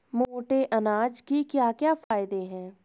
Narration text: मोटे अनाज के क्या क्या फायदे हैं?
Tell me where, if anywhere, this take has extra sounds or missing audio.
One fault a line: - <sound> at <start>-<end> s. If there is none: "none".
- dropout at 2.0-2.1 s